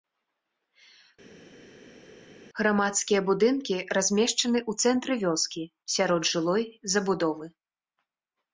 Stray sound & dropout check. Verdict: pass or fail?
pass